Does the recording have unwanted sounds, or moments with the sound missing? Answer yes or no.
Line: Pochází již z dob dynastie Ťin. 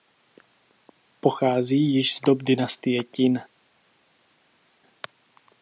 no